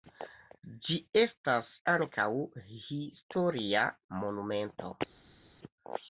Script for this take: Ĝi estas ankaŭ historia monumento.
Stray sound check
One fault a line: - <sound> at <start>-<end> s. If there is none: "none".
none